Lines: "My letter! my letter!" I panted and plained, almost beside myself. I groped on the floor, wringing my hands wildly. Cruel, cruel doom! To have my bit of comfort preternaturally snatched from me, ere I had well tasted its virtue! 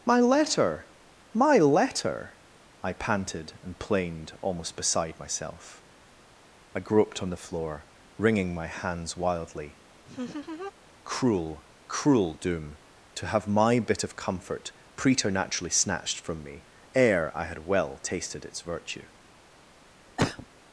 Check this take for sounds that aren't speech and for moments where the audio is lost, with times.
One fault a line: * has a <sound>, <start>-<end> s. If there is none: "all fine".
* has a laugh, 10.0-10.7 s
* has a cough, 20.2-20.5 s